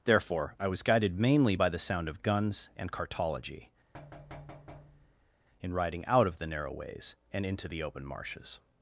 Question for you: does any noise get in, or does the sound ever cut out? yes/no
yes